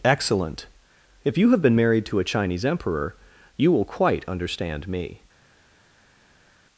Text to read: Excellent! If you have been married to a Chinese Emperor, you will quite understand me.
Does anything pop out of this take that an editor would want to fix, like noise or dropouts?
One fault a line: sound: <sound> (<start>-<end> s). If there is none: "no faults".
no faults